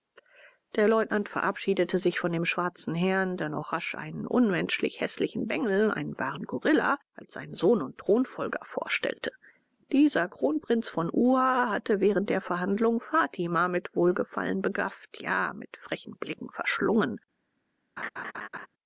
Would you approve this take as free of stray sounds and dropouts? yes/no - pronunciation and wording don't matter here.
no